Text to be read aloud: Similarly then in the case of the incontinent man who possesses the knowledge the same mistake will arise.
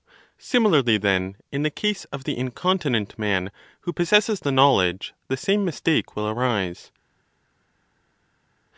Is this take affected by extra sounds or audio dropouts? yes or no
no